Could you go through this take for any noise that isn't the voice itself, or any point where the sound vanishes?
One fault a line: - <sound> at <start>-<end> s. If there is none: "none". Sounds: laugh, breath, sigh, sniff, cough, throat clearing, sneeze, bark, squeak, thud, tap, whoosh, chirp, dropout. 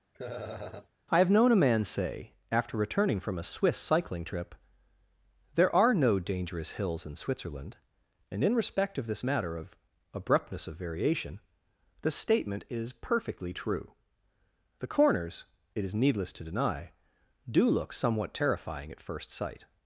- laugh at 0.1-0.9 s